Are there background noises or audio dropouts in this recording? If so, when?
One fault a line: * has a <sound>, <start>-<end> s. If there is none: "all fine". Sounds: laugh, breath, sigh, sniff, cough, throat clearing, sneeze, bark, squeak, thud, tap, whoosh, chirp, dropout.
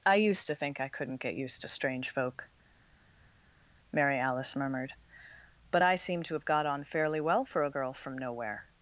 all fine